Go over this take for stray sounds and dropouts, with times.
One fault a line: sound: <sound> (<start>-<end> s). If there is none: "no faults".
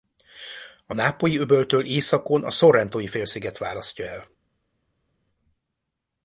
no faults